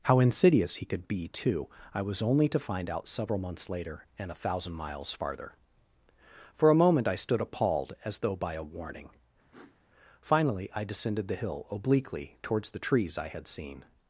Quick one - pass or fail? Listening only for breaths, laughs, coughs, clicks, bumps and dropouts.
fail